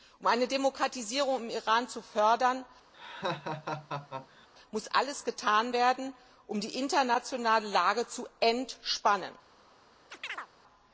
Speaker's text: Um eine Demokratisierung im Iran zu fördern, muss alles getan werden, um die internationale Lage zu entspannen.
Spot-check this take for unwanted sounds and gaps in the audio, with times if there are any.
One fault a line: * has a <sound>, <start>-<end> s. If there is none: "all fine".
* has a laugh, 2.9-4.5 s
* has a chirp, 10.1-10.5 s